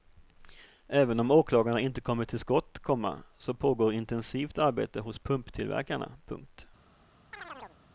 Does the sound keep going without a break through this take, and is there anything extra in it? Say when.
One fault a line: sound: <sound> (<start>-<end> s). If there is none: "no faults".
sound: chirp (7.3-7.8 s)